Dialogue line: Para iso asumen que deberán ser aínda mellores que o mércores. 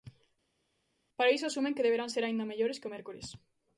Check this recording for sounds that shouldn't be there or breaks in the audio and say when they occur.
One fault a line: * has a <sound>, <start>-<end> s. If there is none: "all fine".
all fine